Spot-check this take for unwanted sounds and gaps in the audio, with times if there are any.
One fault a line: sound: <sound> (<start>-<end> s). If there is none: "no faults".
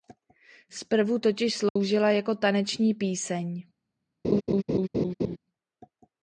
sound: dropout (1.7-1.8 s)
sound: laugh (4.2-5.4 s)